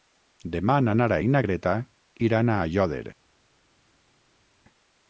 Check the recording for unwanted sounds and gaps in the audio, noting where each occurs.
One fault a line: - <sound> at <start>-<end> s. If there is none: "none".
none